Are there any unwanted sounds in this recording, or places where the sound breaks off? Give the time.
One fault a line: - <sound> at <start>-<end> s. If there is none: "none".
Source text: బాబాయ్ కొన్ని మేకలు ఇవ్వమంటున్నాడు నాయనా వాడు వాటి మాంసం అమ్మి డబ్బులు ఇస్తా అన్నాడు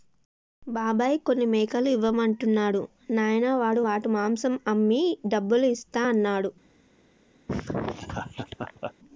- laugh at 7.5-8.9 s